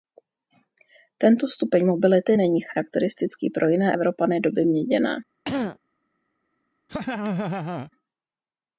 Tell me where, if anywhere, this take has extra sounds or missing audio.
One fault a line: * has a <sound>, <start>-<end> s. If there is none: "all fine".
* has a throat clearing, 5.4-5.8 s
* has a laugh, 6.9-7.9 s